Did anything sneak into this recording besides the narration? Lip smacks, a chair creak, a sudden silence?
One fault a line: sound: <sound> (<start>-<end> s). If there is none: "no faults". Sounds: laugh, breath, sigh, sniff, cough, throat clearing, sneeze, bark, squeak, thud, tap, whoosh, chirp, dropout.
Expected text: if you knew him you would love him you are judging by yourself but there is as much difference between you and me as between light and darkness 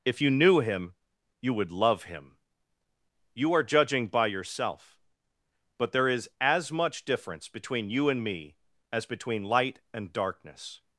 no faults